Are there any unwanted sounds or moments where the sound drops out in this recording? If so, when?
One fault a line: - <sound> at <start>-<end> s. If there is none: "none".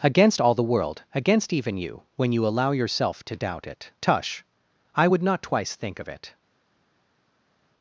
none